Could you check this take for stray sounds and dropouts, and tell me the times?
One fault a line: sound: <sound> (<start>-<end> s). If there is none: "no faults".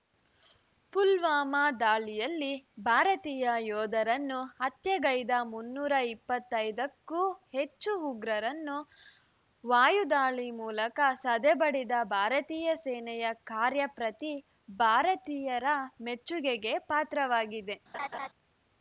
sound: laugh (17.9-18.3 s)